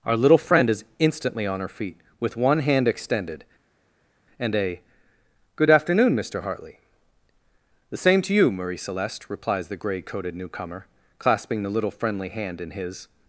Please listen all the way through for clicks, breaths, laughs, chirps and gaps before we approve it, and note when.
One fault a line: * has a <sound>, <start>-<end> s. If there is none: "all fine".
all fine